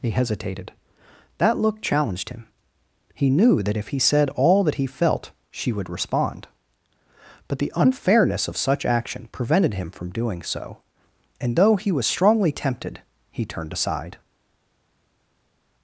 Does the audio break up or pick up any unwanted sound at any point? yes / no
no